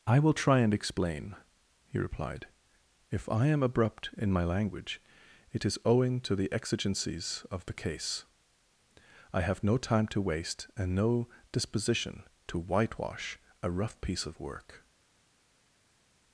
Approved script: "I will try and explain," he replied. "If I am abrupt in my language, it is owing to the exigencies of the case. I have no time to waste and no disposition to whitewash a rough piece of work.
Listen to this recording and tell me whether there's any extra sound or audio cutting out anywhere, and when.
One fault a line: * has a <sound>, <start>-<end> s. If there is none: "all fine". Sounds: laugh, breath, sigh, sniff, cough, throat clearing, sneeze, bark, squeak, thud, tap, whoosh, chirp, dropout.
all fine